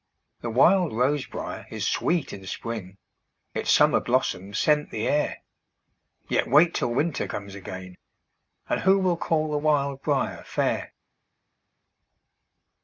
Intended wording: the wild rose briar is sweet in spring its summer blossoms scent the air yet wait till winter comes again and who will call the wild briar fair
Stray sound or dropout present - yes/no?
no